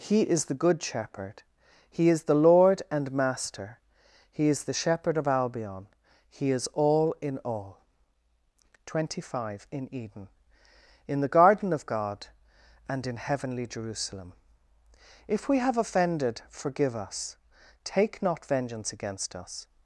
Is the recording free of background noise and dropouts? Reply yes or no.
yes